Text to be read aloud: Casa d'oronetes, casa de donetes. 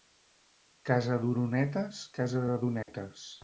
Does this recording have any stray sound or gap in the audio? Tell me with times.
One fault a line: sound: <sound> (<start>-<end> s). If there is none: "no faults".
sound: dropout (2.8-2.9 s)